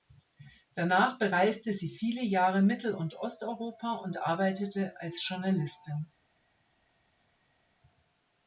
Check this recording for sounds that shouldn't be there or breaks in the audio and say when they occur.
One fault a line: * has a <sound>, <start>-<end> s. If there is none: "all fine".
all fine